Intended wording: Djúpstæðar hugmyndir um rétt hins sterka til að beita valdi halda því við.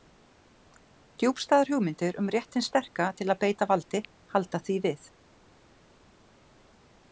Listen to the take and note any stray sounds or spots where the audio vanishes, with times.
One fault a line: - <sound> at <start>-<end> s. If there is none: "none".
none